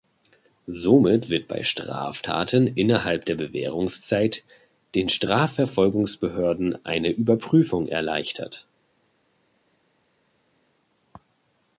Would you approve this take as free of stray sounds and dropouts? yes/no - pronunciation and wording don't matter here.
yes